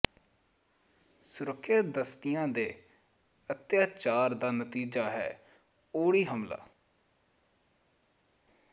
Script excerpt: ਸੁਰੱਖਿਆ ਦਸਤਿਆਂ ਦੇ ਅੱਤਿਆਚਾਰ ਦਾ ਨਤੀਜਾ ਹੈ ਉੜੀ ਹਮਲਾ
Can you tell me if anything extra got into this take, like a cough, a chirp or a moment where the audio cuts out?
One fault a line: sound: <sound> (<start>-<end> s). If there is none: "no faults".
no faults